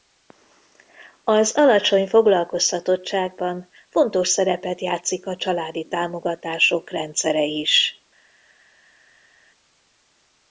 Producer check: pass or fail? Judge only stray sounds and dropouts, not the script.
pass